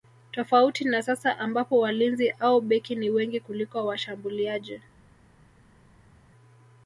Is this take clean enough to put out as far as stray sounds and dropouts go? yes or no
yes